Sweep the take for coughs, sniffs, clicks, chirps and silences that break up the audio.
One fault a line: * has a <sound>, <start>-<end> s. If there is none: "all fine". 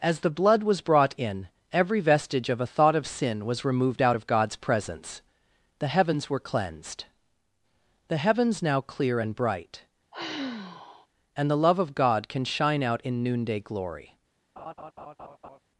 * has a sigh, 10.1-11.1 s
* has a laugh, 14.6-15.6 s